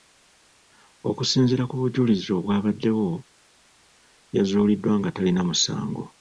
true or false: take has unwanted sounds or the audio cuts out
false